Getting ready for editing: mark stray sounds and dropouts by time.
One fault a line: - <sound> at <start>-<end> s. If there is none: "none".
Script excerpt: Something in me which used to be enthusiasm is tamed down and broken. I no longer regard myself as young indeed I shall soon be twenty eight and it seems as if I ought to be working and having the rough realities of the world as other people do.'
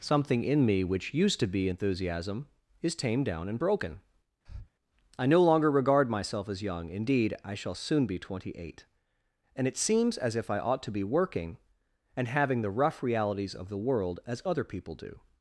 - breath at 4.5-4.7 s